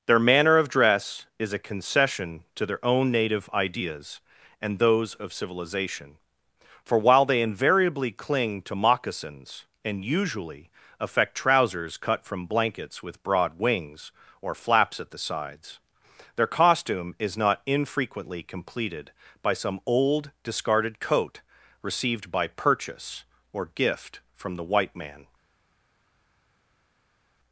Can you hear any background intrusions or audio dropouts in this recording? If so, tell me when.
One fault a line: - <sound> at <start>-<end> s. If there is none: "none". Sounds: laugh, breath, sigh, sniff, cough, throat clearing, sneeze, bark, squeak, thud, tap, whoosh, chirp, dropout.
none